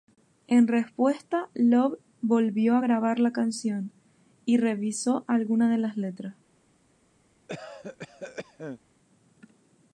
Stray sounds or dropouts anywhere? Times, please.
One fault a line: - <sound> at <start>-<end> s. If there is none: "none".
- cough at 7.5-8.8 s